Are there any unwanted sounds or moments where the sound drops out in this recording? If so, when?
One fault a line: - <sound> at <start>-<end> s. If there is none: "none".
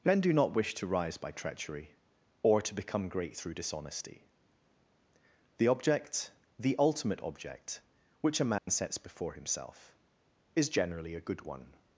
- dropout at 8.6-8.7 s